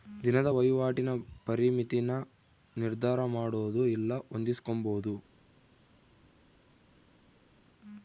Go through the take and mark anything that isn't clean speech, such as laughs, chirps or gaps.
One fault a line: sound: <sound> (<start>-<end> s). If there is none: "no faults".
no faults